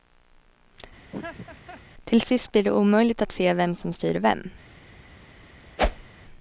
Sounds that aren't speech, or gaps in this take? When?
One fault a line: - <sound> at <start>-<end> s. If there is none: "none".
- laugh at 1.1-1.8 s
- whoosh at 5.8-6.1 s